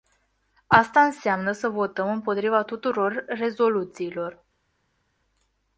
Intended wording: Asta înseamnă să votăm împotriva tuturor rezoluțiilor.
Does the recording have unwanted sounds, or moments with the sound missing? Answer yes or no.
no